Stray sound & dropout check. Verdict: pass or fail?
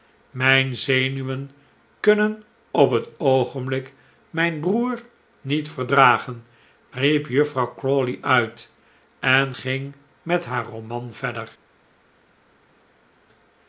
pass